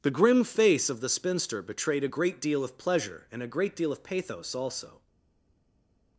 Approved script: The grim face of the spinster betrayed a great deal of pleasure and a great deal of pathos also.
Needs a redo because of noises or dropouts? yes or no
no